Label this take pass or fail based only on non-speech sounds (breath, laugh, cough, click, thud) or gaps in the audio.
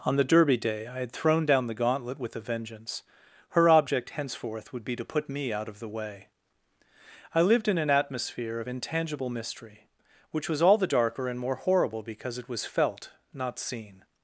pass